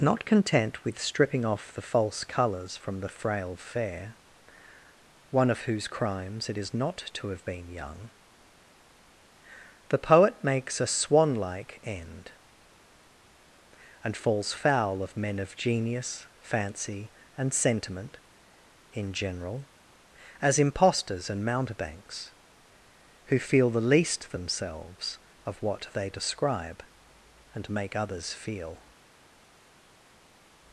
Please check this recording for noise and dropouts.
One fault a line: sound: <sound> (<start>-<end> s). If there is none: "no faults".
no faults